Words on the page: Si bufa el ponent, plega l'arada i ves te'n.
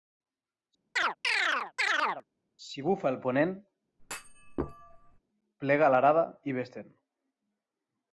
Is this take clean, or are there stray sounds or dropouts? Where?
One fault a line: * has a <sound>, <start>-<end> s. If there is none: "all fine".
* has a chirp, 1.0-2.2 s
* has a thud, 4.0-5.2 s